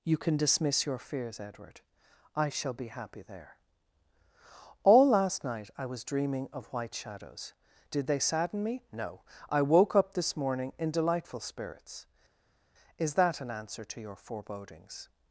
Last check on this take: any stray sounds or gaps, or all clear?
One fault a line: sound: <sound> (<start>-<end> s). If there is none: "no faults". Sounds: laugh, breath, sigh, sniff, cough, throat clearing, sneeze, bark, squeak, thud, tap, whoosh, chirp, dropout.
no faults